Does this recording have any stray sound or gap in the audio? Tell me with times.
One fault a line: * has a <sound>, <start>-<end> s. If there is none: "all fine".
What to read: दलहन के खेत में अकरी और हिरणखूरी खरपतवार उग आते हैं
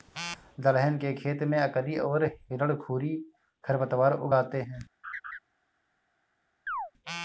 * has a laugh, 5.0-5.4 s
* has a chirp, 6.7-6.9 s